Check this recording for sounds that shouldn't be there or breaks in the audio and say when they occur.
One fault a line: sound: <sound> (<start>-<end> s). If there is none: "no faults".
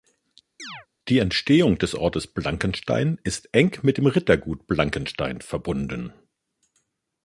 sound: chirp (0.6-0.9 s)